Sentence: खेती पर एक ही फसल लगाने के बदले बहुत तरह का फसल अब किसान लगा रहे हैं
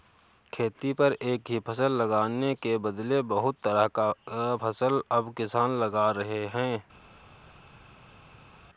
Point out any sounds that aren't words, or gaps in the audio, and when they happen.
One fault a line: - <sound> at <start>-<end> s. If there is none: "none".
none